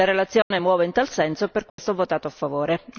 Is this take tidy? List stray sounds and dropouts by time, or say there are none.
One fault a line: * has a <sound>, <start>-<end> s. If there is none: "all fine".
* has a dropout, 0.4-0.5 s
* has a dropout, 1.7-1.8 s